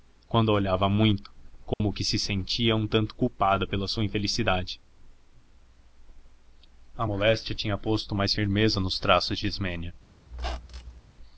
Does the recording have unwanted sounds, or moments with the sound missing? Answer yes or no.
yes